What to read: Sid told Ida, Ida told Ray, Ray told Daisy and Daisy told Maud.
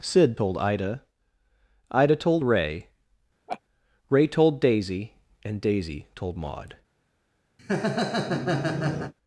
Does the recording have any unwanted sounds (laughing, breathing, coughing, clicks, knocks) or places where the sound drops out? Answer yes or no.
yes